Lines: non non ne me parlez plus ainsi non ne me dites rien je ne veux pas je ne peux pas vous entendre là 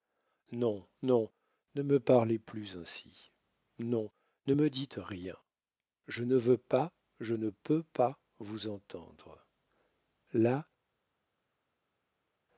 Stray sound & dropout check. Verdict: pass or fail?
pass